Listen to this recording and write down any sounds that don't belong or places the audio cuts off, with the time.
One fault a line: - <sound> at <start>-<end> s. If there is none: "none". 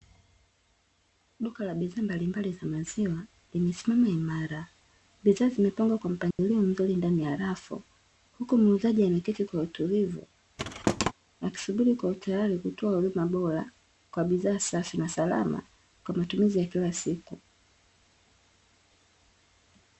- dropout at 6.3-6.4 s
- thud at 10.6-11.1 s